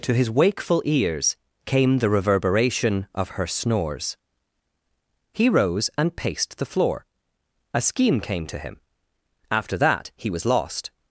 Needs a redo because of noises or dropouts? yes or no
no